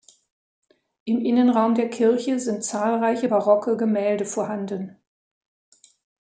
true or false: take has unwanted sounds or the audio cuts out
false